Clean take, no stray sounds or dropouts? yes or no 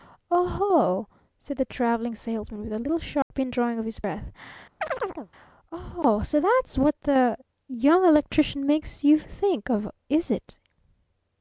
no